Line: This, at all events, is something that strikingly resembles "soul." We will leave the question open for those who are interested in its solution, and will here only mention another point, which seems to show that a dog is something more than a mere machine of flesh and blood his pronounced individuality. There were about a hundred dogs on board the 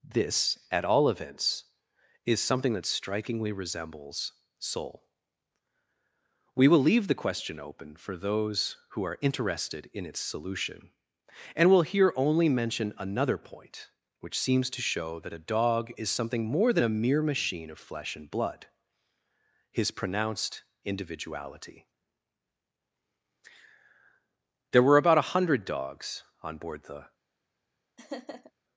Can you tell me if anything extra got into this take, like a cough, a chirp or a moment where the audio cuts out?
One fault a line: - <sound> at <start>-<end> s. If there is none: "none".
- laugh at 28.0-28.5 s